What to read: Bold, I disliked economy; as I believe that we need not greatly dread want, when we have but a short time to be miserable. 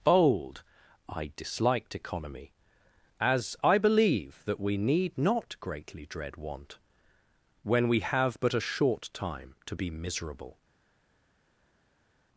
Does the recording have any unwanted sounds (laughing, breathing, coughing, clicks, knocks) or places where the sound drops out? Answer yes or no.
no